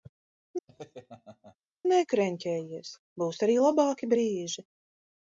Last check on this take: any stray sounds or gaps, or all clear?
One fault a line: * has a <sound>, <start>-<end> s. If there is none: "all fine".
* has a laugh, 0.7-1.6 s